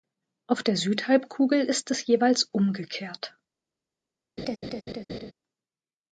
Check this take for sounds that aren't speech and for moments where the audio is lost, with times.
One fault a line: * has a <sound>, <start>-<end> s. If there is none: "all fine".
* has a laugh, 4.4-5.3 s